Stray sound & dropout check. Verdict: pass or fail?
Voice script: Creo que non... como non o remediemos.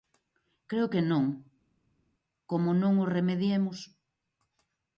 pass